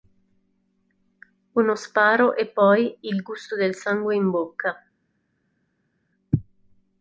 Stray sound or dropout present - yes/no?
no